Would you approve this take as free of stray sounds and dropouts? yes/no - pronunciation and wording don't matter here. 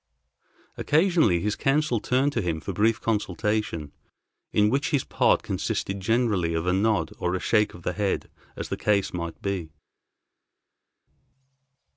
yes